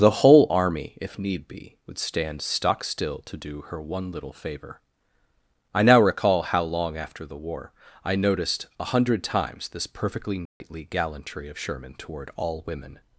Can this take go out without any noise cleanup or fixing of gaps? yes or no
no